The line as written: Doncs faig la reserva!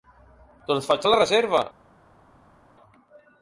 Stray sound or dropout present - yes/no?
no